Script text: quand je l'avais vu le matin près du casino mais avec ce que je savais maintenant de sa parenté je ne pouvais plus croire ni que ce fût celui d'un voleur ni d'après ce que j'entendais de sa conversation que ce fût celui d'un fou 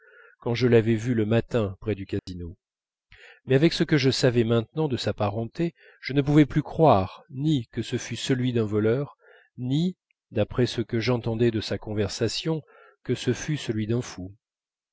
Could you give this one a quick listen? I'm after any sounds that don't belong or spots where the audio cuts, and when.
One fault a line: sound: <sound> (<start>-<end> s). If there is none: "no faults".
sound: dropout (2.2-2.3 s)